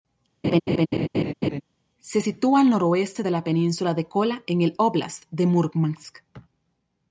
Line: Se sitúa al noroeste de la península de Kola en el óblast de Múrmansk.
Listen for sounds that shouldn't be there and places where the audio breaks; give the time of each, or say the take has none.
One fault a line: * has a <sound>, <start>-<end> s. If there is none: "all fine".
* has a laugh, 0.4-1.6 s